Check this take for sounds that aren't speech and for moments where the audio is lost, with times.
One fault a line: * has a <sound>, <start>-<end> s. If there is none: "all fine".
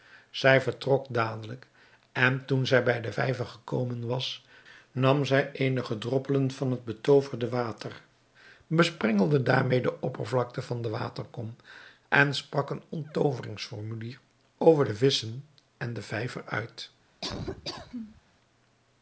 * has a laugh, 17.2-18.2 s